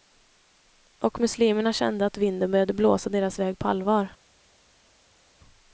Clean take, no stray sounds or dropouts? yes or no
yes